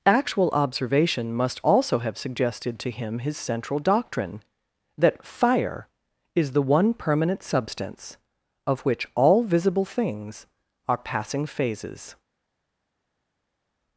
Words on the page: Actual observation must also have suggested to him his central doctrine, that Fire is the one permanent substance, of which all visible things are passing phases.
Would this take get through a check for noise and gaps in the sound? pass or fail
pass